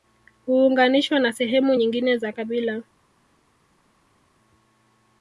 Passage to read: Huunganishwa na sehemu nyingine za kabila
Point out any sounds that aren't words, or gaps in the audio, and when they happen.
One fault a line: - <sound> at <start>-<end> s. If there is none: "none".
none